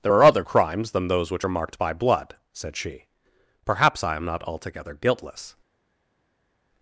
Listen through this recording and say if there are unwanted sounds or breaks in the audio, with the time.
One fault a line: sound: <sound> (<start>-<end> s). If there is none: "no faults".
no faults